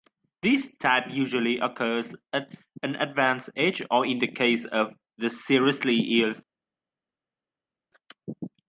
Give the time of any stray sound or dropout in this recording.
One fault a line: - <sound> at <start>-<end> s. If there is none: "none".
none